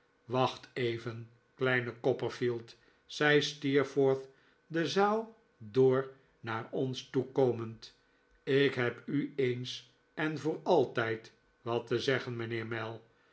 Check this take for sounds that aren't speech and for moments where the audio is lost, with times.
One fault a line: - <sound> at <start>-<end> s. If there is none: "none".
none